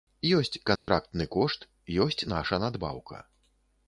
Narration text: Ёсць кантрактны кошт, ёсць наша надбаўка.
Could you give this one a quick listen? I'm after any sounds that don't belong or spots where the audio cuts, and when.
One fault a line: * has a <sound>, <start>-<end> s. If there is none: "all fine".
* has a dropout, 0.8-0.9 s